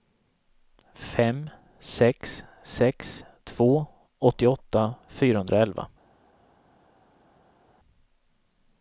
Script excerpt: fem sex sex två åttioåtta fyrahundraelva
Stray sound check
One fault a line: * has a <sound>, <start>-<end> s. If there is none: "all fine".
all fine